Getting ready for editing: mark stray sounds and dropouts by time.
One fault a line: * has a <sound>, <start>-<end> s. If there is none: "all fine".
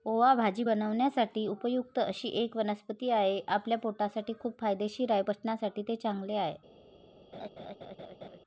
* has a laugh, 7.3-8.4 s